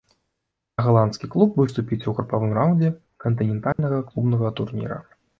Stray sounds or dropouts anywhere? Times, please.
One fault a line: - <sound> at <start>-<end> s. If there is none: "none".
- dropout at 3.7-3.8 s